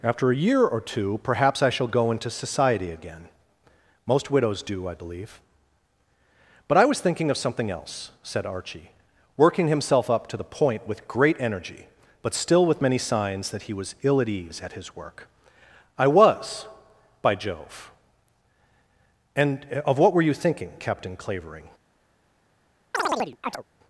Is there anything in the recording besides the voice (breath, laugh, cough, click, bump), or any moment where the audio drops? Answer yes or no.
yes